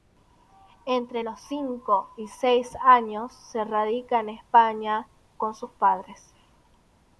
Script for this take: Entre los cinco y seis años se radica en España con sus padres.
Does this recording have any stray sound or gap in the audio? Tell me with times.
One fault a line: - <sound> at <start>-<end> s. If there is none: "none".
none